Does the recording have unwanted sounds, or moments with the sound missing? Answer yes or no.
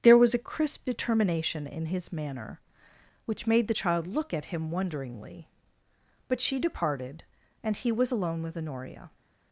no